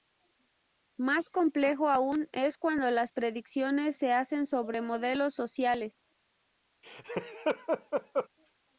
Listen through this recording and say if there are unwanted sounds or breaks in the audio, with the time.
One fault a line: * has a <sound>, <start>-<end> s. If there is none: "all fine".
* has a laugh, 6.8-8.3 s